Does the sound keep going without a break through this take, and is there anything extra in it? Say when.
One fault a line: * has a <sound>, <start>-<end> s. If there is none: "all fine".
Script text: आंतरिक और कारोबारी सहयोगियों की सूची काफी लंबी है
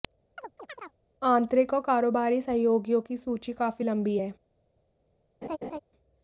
* has a chirp, 0.4-1.0 s
* has a laugh, 5.4-5.8 s